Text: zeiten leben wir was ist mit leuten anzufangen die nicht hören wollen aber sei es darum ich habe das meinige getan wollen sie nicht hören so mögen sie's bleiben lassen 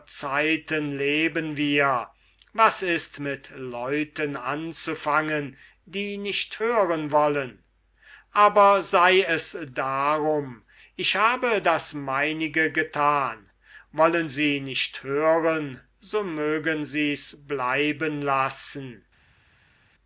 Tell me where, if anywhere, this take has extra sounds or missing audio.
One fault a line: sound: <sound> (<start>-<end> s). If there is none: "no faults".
no faults